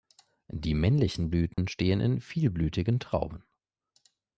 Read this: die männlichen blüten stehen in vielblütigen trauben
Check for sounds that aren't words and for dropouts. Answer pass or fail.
fail